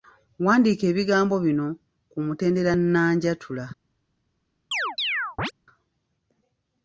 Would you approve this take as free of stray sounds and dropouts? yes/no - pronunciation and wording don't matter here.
no